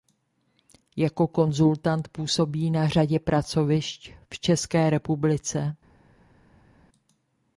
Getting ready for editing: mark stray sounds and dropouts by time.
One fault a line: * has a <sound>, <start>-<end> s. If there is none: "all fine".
all fine